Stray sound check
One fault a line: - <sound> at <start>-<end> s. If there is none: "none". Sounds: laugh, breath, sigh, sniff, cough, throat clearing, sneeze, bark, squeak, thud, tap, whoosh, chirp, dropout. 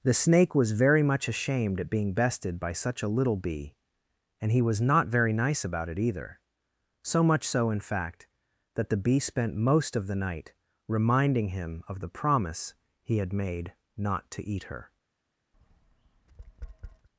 - tap at 15.5-17.1 s